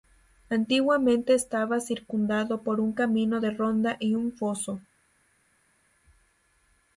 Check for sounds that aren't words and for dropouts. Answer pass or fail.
pass